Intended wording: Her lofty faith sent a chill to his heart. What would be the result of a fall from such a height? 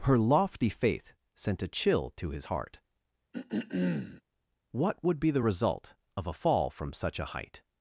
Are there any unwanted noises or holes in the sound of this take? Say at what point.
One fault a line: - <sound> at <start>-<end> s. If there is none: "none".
- throat clearing at 3.3-4.2 s